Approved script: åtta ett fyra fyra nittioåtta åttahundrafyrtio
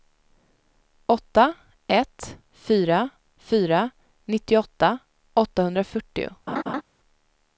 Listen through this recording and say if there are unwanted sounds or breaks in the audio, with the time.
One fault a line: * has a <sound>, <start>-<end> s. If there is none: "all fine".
* has a laugh, 6.5-6.8 s